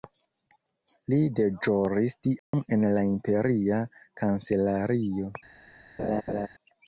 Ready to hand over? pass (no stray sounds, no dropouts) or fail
fail